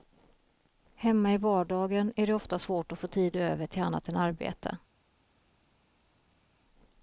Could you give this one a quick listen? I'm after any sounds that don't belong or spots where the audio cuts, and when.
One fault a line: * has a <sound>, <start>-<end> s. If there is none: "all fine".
all fine